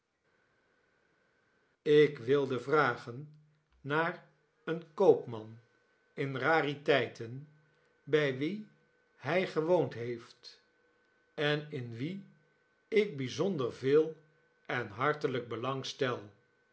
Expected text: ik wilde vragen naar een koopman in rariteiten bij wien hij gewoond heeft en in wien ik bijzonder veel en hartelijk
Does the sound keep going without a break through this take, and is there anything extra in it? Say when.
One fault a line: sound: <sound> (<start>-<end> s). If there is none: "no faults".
no faults